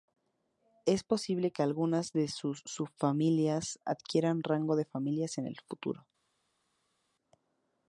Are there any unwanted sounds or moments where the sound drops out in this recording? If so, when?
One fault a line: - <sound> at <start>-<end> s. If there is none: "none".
none